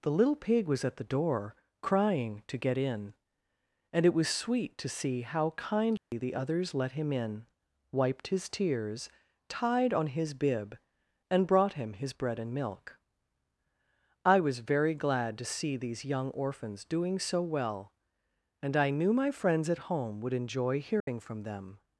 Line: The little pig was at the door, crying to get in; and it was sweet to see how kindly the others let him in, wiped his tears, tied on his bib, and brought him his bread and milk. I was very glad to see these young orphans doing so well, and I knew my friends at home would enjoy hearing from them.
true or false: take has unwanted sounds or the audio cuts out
true